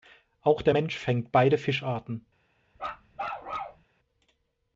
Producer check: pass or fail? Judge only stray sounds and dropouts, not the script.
fail